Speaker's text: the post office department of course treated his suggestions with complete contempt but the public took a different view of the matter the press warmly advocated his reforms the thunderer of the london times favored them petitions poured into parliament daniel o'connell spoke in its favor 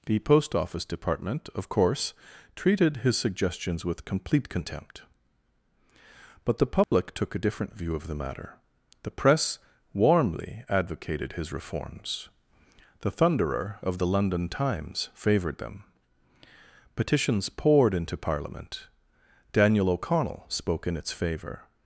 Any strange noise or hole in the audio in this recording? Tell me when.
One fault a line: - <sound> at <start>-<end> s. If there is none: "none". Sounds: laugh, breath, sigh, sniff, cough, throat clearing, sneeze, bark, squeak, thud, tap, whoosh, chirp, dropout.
- dropout at 6.8-6.9 s